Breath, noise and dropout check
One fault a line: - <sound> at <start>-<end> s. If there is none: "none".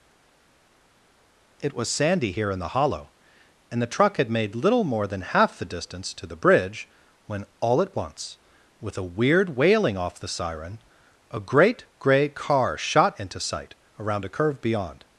none